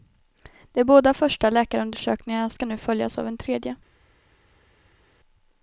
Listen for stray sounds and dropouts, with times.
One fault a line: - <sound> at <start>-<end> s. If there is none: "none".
none